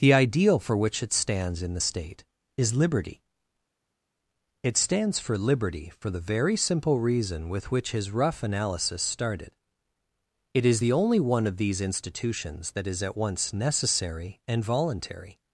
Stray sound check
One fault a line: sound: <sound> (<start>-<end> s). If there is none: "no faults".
no faults